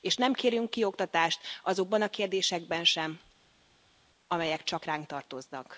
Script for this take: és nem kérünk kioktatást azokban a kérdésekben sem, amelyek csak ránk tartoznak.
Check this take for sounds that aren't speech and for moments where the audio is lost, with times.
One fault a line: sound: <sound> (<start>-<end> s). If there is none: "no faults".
no faults